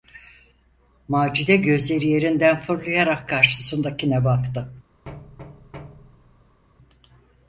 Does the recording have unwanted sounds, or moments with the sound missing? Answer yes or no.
yes